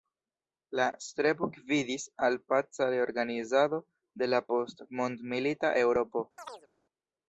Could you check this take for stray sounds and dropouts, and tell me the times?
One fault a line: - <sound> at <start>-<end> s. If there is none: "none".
- chirp at 6.4-6.7 s